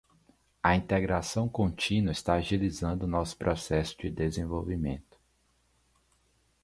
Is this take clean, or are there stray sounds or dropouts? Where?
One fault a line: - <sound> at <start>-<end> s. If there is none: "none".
none